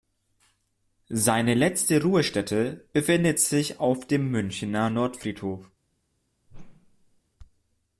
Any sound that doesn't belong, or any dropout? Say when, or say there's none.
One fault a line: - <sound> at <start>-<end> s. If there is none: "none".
- whoosh at 6.5-7.2 s